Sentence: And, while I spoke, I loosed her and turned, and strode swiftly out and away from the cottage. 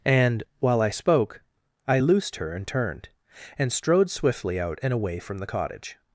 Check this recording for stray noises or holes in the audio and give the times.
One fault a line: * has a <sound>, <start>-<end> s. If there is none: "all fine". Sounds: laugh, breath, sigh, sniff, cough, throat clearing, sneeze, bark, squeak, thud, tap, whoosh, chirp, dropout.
all fine